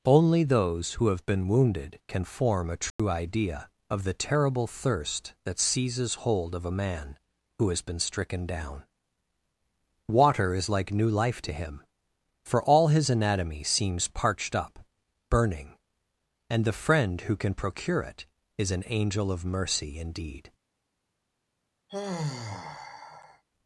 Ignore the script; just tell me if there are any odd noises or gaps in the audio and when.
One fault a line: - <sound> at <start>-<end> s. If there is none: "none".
- dropout at 2.9-3.0 s
- sigh at 21.9-23.4 s